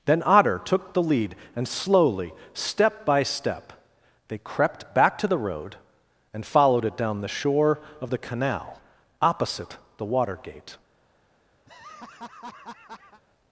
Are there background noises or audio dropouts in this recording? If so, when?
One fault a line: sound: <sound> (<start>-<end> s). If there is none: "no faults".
sound: laugh (11.7-13.2 s)